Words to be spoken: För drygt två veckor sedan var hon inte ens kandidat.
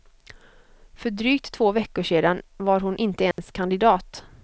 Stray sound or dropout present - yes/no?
yes